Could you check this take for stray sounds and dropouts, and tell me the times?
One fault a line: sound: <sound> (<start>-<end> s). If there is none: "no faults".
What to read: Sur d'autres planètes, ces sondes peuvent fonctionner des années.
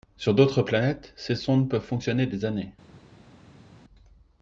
no faults